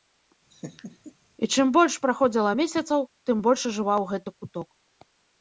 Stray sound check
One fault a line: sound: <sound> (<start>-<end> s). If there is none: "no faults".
sound: laugh (0.5-1.1 s)